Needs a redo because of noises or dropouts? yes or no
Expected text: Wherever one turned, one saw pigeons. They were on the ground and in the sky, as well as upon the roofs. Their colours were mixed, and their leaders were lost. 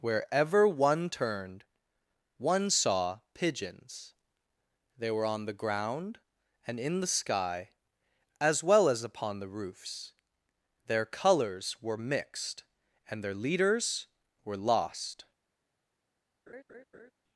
yes